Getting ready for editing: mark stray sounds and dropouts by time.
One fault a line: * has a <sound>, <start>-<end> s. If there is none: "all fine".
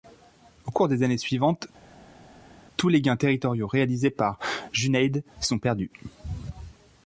all fine